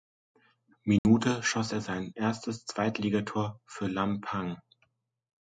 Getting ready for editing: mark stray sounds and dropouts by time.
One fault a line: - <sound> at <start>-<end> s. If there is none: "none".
- dropout at 1.0-1.0 s